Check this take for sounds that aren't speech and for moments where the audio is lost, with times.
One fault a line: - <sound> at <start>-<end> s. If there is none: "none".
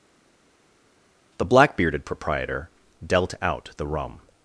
none